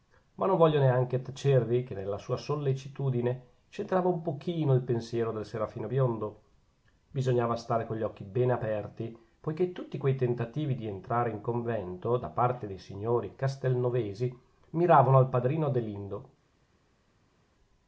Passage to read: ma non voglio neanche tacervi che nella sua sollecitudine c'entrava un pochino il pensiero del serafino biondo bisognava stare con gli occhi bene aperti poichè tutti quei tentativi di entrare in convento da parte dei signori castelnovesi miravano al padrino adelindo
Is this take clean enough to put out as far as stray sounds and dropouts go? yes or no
yes